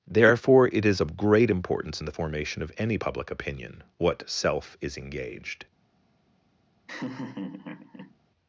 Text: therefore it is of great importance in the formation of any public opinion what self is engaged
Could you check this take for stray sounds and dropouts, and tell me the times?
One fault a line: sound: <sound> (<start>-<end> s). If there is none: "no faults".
sound: laugh (6.9-8.2 s)